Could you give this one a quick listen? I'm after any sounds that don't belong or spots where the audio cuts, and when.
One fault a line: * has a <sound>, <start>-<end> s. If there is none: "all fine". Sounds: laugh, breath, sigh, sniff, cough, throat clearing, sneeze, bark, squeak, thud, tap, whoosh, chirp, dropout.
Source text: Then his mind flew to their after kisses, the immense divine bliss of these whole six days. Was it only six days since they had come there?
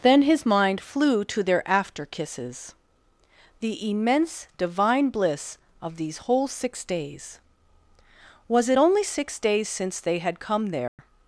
* has a dropout, 10.9-11.0 s